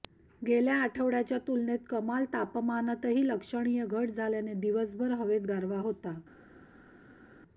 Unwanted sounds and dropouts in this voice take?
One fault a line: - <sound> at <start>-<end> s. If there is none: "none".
none